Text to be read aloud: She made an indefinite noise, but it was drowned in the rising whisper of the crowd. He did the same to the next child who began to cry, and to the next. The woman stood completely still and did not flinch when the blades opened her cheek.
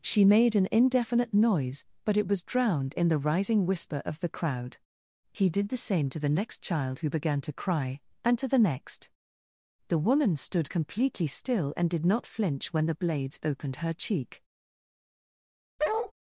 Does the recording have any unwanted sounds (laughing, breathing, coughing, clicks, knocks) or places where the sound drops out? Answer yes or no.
yes